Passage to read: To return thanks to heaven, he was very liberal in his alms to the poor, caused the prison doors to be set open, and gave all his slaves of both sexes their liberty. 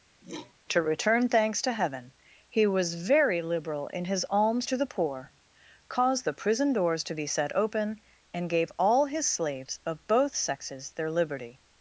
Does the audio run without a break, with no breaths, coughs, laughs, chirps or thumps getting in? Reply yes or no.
no